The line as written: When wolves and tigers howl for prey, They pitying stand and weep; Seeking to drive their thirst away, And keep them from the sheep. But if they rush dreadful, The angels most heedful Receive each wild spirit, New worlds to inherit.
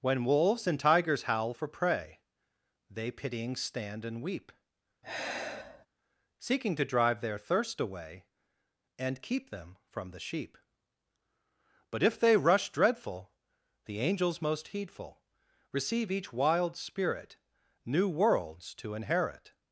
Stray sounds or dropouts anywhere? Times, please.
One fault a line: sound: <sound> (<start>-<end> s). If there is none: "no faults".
sound: sigh (5.0-5.9 s)